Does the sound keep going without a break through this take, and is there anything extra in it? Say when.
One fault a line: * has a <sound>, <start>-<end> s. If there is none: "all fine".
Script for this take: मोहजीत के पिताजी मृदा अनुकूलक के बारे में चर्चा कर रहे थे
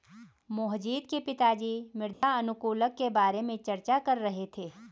* has a dropout, 2.1-2.2 s